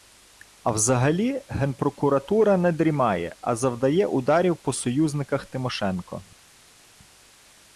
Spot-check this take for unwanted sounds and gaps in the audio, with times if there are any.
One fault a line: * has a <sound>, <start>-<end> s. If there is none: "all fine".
all fine